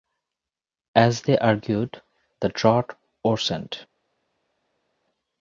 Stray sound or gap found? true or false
false